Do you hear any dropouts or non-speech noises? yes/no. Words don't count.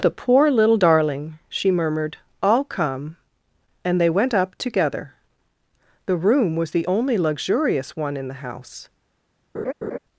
yes